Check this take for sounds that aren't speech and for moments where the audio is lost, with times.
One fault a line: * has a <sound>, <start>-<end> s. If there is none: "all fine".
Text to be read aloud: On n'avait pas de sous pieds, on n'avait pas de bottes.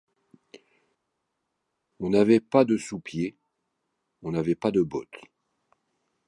all fine